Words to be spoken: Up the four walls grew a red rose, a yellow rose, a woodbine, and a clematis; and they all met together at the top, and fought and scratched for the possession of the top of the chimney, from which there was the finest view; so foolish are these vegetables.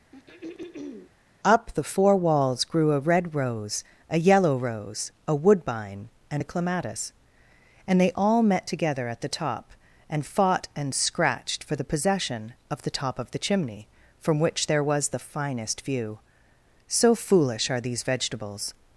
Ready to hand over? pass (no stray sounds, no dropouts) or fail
fail